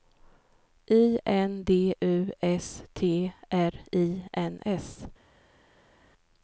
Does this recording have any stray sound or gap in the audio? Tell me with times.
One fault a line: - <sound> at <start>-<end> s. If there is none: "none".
none